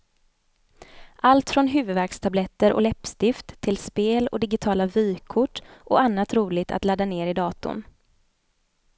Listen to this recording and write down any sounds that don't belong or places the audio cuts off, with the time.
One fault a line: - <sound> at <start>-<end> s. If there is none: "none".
none